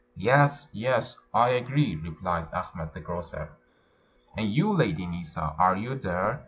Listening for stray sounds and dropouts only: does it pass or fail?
pass